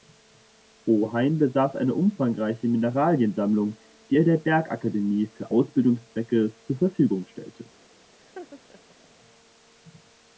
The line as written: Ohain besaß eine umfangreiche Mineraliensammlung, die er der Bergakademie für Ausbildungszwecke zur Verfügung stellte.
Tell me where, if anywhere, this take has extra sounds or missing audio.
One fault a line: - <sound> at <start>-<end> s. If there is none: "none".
- laugh at 8.2-9.1 s